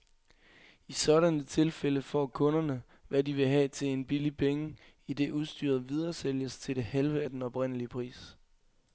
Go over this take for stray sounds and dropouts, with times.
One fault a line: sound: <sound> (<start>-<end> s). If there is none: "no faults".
no faults